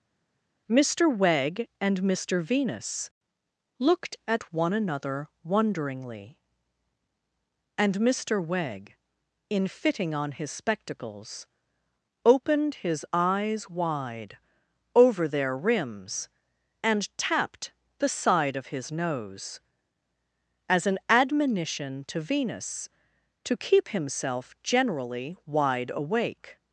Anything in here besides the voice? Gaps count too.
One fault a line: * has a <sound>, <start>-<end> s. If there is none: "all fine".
all fine